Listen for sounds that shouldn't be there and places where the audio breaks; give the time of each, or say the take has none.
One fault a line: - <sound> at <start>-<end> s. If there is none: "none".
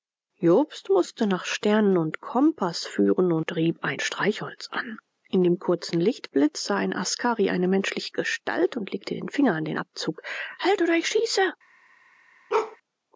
- bark at 12.5-12.8 s